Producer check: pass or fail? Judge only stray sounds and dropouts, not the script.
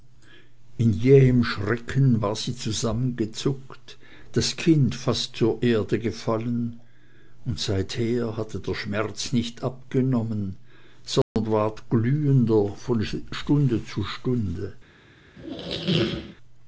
fail